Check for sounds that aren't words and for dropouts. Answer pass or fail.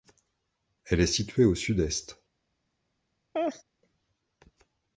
fail